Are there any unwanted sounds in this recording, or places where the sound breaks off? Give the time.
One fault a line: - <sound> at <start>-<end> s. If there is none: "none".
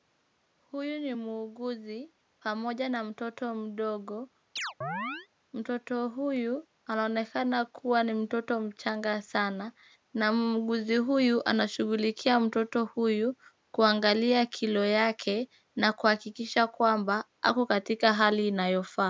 - chirp at 4.6-5.3 s